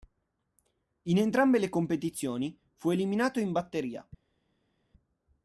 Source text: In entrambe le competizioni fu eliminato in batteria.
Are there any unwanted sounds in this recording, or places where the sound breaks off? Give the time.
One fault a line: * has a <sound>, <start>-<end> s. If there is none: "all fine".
all fine